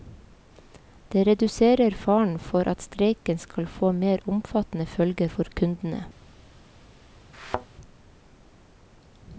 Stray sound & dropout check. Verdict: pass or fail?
fail